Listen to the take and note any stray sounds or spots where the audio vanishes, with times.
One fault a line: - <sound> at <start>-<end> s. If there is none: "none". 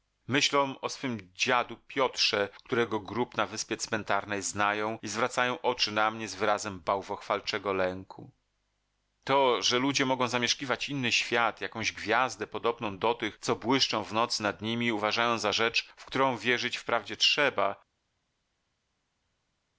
none